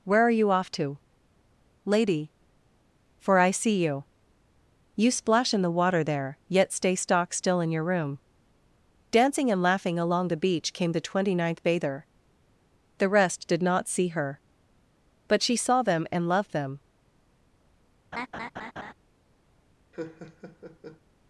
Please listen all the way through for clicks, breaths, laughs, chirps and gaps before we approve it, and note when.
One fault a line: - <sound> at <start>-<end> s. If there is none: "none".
- laugh at 18.1-18.9 s
- laugh at 19.9-21.0 s